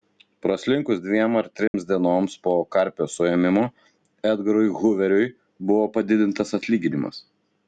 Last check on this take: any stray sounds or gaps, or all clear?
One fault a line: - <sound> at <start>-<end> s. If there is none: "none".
- dropout at 1.7-1.7 s